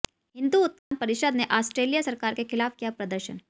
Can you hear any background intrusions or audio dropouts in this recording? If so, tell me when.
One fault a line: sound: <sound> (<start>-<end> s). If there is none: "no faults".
sound: dropout (0.8-0.9 s)